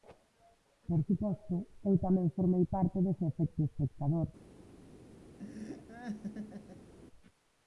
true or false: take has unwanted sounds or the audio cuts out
true